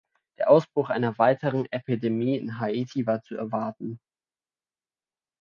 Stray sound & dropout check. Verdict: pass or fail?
pass